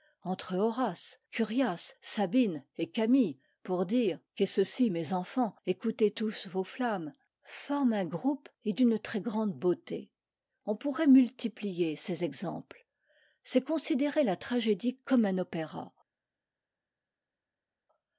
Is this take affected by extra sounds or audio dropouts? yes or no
no